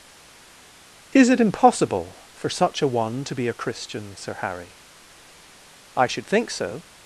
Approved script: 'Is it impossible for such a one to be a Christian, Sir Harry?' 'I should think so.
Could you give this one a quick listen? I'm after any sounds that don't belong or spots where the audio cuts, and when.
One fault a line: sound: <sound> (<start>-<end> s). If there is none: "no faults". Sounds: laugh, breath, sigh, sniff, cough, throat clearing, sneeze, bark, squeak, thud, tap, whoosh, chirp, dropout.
no faults